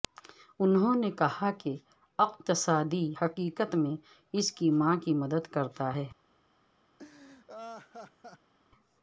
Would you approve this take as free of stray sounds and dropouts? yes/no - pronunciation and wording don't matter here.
no